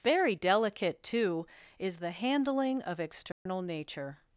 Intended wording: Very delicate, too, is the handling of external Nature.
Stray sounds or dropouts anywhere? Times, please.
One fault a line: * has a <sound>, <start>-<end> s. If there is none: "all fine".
* has a dropout, 3.3-3.5 s